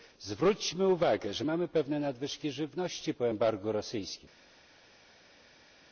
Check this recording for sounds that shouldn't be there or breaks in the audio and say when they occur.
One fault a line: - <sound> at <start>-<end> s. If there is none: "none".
none